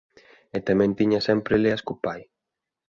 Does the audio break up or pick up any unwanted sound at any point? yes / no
no